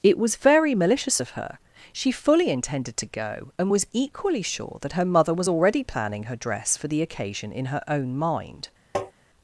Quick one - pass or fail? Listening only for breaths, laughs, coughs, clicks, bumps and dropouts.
fail